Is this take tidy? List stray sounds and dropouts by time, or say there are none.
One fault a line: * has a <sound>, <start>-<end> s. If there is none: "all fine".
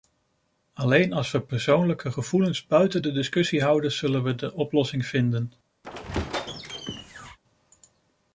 * has a squeak, 5.8-7.4 s